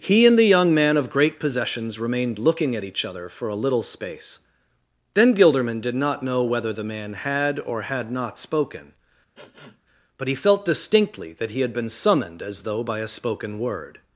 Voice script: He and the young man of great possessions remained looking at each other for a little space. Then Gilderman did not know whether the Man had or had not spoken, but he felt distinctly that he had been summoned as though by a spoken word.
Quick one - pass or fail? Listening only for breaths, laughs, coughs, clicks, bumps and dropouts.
fail